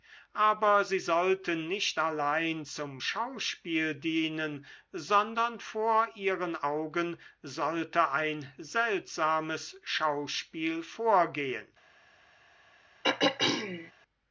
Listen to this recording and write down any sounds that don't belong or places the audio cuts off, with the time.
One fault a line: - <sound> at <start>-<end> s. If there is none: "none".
- throat clearing at 13.0-13.9 s